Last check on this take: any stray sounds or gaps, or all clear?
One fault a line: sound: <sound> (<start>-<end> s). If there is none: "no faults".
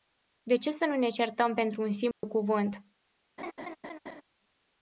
sound: dropout (2.1-2.2 s)
sound: laugh (3.4-4.2 s)